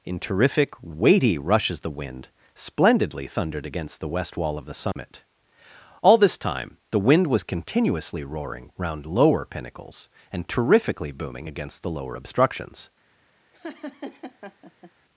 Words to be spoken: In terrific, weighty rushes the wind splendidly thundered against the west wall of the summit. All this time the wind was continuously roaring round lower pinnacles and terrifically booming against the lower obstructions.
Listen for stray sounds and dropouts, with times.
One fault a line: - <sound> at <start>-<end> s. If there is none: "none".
- dropout at 4.9-5.0 s
- laugh at 13.5-14.9 s